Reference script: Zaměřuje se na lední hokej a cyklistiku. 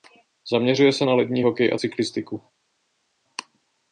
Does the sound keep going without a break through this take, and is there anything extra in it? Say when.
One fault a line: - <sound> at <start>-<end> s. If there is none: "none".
none